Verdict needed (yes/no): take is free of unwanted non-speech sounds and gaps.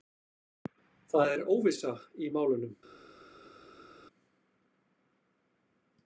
yes